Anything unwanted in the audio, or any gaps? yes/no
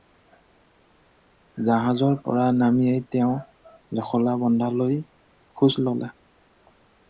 no